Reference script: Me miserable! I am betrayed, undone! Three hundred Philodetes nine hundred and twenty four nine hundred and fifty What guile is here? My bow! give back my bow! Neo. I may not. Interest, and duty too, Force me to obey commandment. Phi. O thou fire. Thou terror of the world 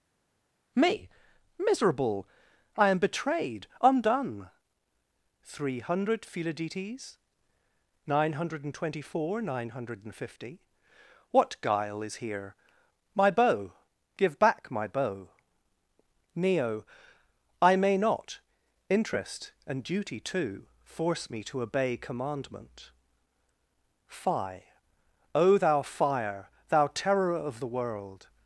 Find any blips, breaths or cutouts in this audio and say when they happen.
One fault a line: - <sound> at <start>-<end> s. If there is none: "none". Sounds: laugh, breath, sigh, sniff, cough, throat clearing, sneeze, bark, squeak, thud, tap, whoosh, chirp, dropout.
none